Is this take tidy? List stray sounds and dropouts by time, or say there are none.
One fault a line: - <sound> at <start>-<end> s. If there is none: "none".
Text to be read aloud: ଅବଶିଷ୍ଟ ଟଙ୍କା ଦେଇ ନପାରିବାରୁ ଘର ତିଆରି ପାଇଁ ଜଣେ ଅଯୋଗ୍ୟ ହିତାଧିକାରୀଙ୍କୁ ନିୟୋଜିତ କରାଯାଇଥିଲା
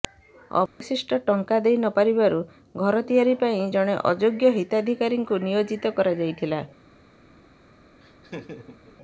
- dropout at 0.7-0.8 s
- laugh at 8.0-9.0 s